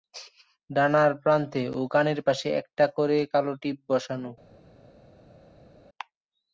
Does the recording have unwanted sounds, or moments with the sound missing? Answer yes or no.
no